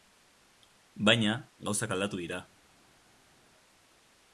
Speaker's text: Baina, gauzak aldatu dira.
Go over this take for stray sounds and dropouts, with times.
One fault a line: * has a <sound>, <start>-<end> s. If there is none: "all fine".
all fine